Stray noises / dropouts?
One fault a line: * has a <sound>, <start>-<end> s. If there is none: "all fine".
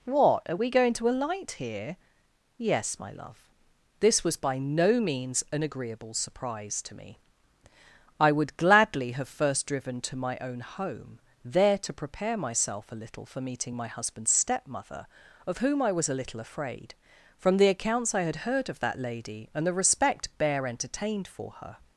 all fine